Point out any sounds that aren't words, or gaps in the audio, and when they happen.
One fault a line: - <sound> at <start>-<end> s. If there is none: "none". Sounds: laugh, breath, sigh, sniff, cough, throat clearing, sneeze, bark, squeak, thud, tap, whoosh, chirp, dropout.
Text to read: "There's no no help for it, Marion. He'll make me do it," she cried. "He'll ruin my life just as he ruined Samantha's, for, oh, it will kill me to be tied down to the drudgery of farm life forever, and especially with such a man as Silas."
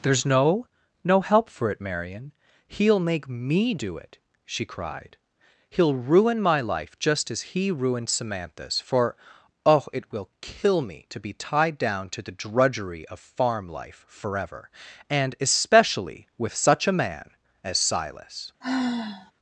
- sigh at 18.6-19.3 s